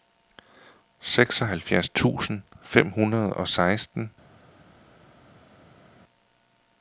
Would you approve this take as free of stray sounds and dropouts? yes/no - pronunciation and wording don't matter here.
yes